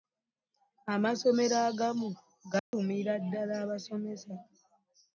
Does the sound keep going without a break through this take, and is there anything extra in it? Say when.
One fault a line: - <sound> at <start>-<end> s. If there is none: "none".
- dropout at 2.6-2.7 s